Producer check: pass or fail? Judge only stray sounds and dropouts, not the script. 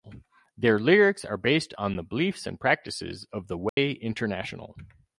fail